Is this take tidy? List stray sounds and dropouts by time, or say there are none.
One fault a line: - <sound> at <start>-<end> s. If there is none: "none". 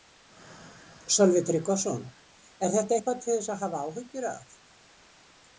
none